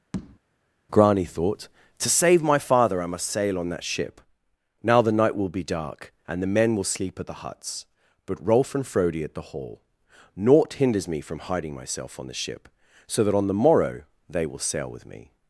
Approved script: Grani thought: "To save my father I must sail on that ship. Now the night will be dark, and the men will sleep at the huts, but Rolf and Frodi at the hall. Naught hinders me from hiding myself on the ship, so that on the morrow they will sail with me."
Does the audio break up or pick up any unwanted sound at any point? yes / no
yes